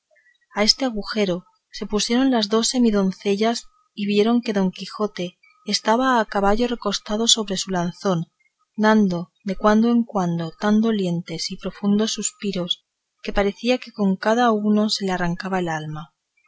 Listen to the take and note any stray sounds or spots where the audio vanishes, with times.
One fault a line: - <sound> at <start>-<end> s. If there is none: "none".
none